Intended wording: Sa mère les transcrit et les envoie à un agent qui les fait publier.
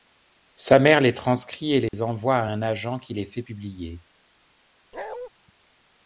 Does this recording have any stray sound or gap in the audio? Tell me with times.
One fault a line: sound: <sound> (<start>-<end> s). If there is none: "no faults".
sound: dropout (1.9-1.9 s)
sound: bark (4.9-5.3 s)